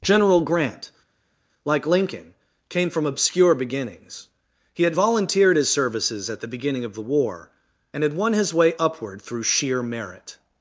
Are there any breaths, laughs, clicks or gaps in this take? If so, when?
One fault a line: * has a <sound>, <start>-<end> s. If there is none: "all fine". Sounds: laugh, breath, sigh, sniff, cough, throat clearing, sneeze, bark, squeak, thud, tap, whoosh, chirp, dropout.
all fine